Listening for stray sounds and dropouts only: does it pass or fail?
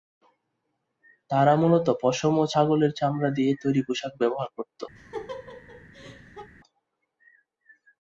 fail